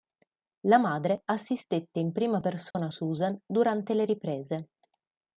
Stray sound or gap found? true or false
true